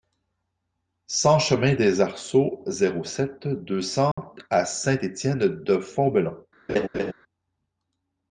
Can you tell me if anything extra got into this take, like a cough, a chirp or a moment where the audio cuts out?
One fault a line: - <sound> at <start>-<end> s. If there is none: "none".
- dropout at 4.1-4.2 s
- laugh at 6.7-7.1 s